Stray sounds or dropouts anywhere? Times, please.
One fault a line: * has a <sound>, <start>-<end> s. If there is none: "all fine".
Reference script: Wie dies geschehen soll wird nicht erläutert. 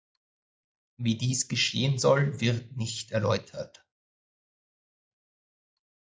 all fine